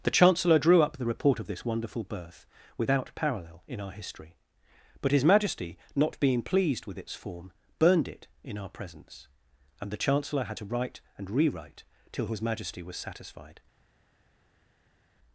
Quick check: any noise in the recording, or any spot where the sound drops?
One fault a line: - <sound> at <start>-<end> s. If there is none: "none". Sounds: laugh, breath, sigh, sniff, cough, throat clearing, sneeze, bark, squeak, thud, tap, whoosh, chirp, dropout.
none